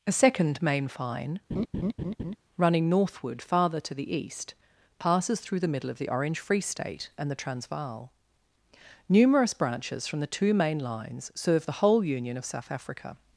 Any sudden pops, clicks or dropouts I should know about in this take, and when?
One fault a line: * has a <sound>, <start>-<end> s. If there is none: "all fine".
* has a laugh, 1.5-2.4 s